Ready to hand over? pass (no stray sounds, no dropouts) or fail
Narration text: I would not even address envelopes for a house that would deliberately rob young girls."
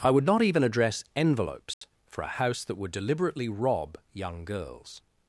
fail